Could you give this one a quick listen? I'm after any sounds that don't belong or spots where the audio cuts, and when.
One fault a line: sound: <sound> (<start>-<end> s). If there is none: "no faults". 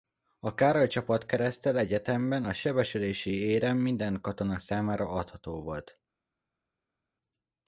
no faults